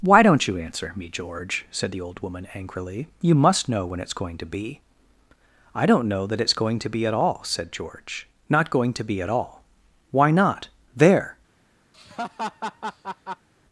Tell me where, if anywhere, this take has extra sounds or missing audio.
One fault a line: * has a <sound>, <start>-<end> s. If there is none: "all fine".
* has a laugh, 11.9-13.5 s